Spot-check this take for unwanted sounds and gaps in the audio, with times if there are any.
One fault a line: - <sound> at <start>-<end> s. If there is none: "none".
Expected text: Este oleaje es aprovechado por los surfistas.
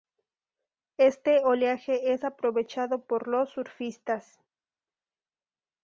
none